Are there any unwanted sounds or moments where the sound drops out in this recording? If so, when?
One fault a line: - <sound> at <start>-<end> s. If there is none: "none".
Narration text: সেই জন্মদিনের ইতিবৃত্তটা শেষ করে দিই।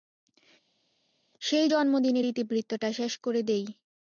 none